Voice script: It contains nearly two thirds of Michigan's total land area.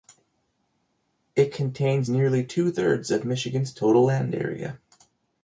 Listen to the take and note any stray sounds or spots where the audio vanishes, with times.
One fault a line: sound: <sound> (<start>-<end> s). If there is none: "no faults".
no faults